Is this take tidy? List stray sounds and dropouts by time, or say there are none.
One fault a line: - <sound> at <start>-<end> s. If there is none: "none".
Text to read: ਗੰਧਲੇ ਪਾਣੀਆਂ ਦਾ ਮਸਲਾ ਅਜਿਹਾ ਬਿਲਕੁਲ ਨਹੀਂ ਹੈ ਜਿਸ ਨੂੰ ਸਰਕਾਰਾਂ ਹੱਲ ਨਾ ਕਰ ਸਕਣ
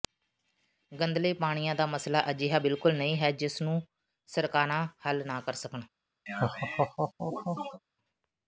- laugh at 6.3-7.8 s